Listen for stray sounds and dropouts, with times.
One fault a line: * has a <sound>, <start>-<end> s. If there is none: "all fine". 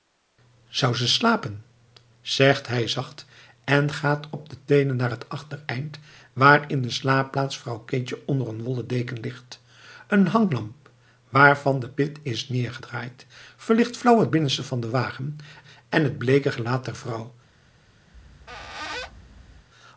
* has a squeak, 18.1-19.7 s